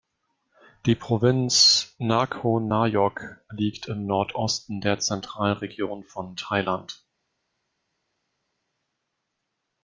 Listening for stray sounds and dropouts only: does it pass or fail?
pass